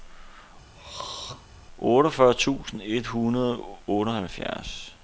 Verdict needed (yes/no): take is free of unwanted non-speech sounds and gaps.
no